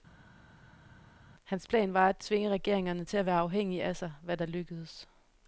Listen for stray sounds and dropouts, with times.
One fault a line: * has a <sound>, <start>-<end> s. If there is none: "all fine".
all fine